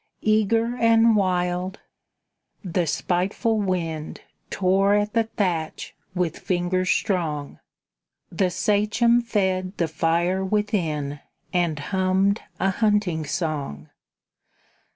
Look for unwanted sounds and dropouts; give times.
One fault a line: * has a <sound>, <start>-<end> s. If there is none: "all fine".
all fine